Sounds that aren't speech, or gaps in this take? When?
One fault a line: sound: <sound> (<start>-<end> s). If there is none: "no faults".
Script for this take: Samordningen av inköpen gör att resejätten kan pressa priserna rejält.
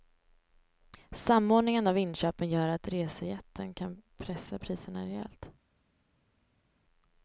no faults